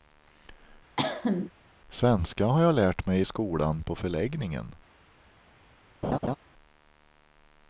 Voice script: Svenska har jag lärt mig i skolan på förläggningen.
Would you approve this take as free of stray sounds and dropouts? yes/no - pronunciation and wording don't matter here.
no